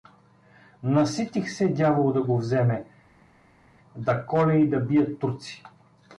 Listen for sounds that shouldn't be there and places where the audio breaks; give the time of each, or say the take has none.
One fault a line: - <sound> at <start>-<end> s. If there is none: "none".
none